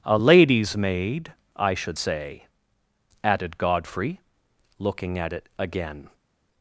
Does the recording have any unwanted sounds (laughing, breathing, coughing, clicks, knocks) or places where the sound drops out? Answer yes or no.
no